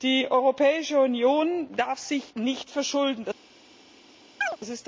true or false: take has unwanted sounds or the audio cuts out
true